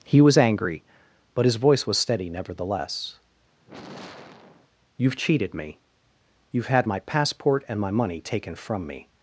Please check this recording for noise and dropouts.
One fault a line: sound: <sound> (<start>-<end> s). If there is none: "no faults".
sound: sigh (3.6-4.7 s)